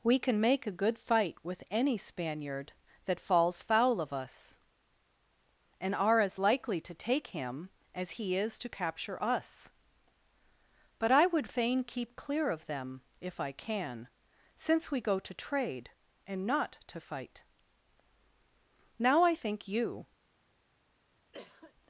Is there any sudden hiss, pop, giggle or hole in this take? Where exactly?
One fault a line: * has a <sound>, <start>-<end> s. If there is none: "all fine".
* has a cough, 21.3-21.7 s